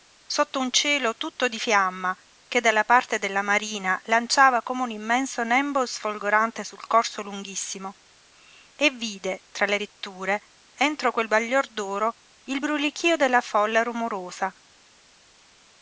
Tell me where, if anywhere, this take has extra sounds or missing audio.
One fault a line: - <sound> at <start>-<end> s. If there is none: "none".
none